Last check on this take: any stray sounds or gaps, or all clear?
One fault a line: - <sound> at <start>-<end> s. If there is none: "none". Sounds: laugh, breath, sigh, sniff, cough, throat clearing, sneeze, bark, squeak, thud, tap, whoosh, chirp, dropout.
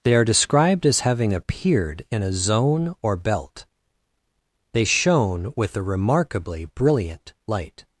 none